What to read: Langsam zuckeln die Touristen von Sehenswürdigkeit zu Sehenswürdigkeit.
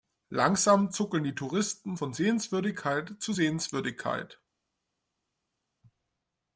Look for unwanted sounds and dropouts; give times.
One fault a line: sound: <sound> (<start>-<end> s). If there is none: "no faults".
no faults